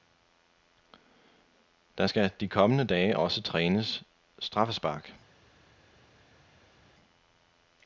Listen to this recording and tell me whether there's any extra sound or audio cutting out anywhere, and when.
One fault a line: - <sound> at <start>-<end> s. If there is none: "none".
none